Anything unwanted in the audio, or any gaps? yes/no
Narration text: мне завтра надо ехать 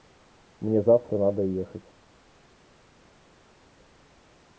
no